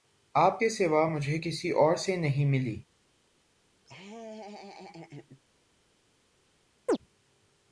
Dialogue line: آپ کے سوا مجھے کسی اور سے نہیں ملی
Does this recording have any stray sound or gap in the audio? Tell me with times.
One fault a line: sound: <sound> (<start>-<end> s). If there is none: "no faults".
sound: laugh (3.9-5.4 s)
sound: chirp (6.9-7.0 s)